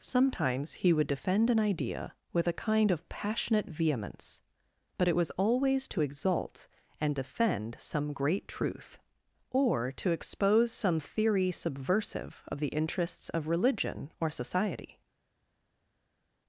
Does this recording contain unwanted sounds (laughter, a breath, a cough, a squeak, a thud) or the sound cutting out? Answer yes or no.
no